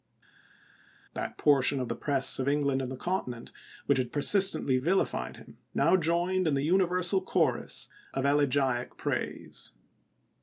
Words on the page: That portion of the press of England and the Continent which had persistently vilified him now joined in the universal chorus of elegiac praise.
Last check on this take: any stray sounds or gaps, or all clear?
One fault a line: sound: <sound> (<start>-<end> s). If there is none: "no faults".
no faults